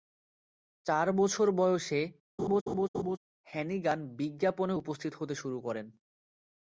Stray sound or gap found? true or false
true